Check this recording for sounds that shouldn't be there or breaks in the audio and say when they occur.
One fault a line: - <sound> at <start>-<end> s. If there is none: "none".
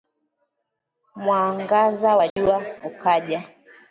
- dropout at 2.3-2.4 s